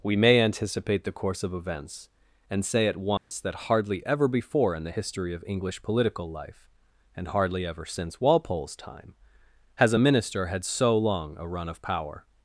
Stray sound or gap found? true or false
true